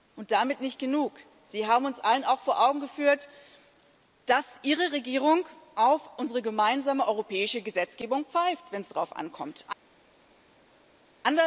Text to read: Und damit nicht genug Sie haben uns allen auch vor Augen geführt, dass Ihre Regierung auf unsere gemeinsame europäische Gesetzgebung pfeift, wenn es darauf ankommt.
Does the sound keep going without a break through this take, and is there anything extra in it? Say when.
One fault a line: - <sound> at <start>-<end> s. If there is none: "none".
none